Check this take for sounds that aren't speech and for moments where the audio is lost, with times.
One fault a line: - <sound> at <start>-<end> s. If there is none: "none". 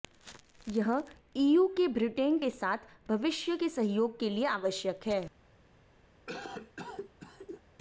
- cough at 6.3-7.6 s